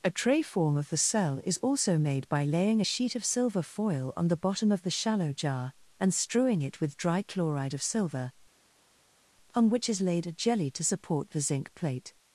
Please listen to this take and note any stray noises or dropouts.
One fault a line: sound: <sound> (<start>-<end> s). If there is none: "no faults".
no faults